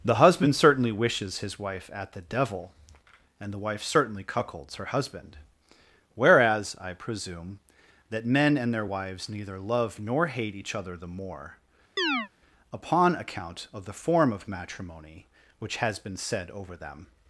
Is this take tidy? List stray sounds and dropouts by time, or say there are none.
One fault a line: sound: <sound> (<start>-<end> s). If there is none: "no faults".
sound: chirp (12.0-12.3 s)